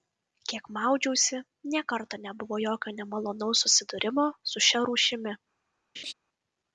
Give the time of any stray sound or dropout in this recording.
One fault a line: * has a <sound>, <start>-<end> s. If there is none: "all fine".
* has a laugh, 6.0-6.1 s